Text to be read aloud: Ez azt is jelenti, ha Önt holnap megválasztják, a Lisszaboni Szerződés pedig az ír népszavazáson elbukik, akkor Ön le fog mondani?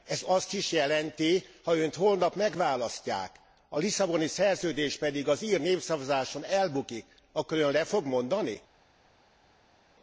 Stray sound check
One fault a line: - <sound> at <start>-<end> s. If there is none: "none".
none